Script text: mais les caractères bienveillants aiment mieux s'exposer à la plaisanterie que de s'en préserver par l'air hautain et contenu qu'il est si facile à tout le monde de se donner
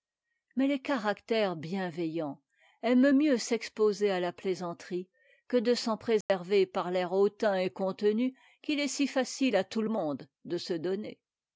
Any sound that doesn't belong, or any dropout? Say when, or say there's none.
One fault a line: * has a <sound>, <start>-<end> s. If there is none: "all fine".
* has a dropout, 6.2-6.3 s